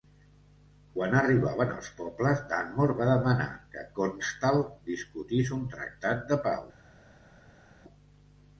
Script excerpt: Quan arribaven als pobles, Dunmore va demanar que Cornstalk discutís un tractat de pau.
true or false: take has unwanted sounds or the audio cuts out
false